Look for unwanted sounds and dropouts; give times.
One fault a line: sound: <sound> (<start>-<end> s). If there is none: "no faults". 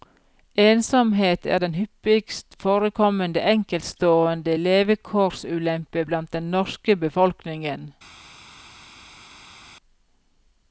no faults